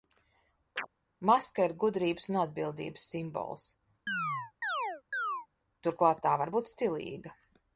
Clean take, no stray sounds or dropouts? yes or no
no